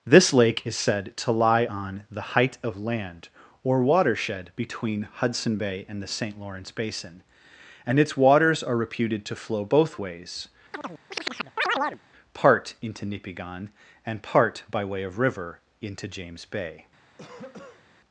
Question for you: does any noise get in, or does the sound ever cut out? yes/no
yes